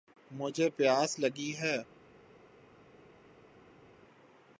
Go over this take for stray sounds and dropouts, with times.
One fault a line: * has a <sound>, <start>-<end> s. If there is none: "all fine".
all fine